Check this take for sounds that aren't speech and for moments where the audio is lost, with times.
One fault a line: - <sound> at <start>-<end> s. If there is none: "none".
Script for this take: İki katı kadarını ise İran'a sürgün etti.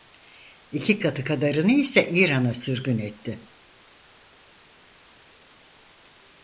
none